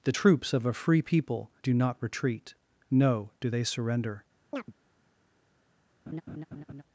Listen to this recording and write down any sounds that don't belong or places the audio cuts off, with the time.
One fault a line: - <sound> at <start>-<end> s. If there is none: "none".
- chirp at 4.5-4.7 s
- laugh at 6.1-6.8 s